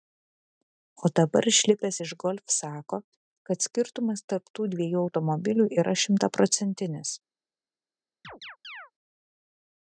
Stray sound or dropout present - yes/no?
yes